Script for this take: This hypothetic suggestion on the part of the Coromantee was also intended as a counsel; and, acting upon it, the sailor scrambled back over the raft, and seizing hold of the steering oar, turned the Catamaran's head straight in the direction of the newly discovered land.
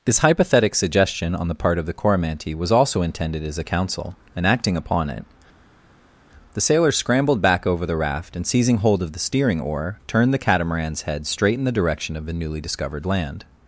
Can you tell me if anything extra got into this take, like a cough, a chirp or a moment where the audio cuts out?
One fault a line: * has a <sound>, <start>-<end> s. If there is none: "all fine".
all fine